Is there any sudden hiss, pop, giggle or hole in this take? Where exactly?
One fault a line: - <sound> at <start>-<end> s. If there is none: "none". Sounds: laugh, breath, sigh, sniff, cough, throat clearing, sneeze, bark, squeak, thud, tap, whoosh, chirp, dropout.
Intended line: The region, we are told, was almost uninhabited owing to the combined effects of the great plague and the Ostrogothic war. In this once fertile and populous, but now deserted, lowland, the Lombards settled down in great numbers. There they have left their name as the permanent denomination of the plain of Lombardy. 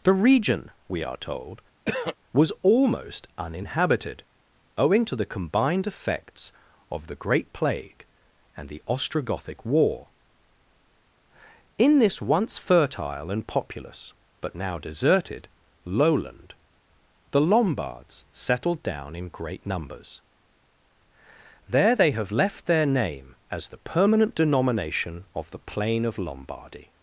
- throat clearing at 1.9-2.2 s